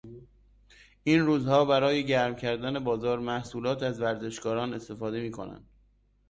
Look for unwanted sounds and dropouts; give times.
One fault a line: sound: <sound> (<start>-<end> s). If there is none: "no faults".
no faults